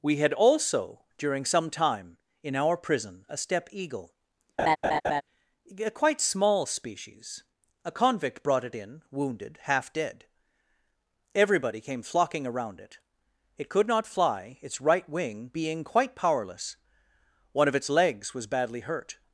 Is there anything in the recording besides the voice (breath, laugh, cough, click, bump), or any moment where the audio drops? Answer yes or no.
yes